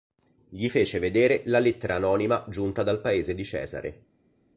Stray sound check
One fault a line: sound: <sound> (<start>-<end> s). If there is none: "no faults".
no faults